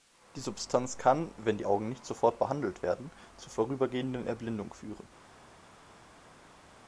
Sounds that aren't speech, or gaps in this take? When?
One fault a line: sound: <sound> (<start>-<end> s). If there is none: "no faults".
no faults